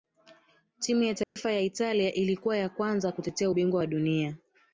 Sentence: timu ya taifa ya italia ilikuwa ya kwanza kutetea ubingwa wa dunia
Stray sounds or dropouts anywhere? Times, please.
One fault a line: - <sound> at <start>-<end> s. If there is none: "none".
- dropout at 1.2-1.4 s